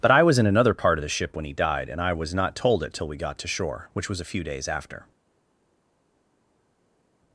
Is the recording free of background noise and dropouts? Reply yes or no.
yes